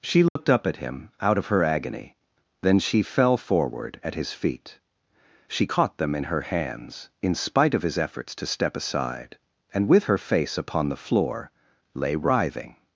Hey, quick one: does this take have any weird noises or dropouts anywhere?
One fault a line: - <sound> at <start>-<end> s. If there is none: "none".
- dropout at 0.3-0.4 s